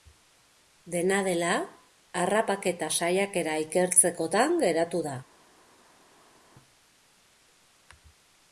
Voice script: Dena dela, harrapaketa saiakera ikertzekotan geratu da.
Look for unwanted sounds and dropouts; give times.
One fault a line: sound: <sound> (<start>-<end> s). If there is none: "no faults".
no faults